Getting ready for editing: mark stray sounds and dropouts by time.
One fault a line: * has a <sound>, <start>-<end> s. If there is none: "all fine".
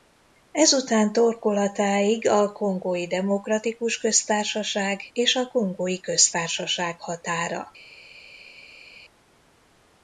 all fine